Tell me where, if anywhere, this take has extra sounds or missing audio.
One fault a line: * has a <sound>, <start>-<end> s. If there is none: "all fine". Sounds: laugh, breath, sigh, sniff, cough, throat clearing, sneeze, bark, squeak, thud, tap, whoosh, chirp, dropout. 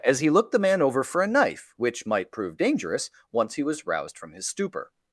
all fine